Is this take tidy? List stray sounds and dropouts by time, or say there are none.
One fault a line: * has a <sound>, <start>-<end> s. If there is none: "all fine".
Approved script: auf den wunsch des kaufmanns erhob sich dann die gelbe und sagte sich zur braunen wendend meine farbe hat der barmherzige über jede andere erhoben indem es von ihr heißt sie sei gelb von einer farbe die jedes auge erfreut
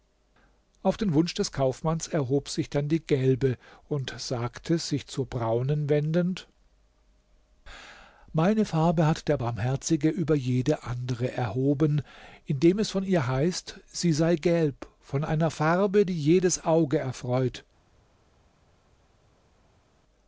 all fine